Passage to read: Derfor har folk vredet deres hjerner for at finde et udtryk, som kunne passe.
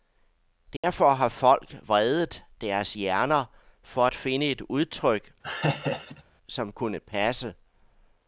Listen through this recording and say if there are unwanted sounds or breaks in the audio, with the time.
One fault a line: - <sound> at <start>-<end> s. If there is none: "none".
- dropout at 0.8-0.8 s
- laugh at 5.4-6.2 s